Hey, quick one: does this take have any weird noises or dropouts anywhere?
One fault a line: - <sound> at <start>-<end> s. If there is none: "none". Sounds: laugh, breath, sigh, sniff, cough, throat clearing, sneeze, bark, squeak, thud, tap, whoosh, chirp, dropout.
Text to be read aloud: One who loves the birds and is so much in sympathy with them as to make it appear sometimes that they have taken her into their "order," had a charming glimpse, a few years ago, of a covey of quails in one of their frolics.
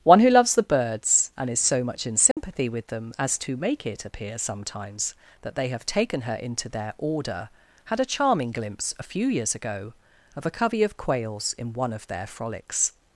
- dropout at 2.3-2.4 s